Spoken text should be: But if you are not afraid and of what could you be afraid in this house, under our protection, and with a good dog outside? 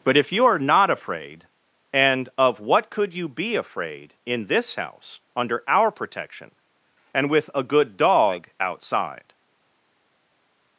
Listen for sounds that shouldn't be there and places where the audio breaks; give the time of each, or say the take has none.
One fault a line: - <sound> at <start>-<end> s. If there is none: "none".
none